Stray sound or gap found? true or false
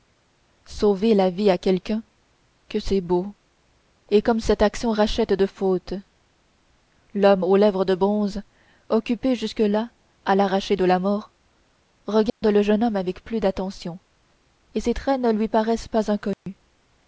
true